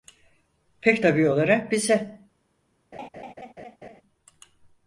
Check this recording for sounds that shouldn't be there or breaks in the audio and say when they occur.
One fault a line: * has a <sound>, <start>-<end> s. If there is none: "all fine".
* has a laugh, 2.9-4.0 s